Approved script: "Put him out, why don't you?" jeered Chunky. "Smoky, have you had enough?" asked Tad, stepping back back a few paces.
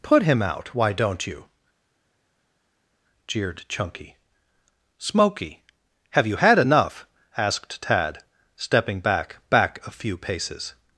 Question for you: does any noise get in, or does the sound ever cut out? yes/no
no